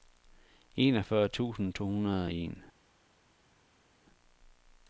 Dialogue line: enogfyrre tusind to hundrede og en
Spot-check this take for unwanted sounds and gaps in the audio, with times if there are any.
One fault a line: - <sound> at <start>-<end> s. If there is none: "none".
none